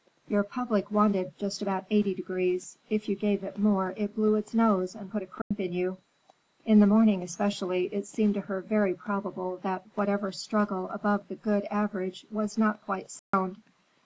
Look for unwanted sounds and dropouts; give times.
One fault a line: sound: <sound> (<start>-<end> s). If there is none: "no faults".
sound: dropout (5.4-5.5 s)
sound: dropout (13.2-13.3 s)